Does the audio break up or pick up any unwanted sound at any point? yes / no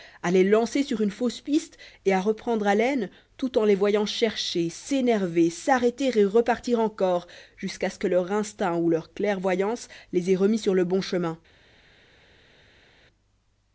no